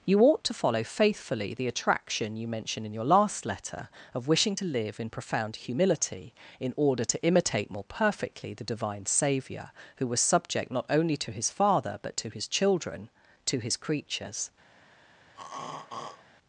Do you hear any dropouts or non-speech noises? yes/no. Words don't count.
yes